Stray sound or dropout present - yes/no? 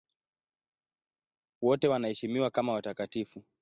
no